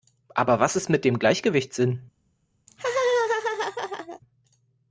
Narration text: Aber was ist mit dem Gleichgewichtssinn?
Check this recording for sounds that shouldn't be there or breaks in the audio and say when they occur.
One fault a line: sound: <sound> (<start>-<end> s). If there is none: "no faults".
sound: laugh (2.7-4.2 s)